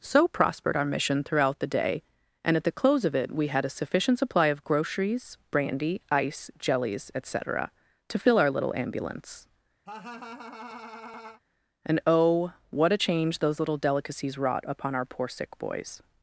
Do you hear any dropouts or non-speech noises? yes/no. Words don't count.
yes